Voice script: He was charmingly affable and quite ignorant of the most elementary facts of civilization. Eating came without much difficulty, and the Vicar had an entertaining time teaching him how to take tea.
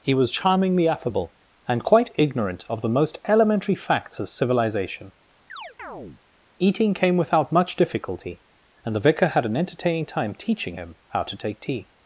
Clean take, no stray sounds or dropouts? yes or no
no